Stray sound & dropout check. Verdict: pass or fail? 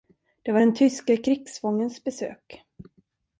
pass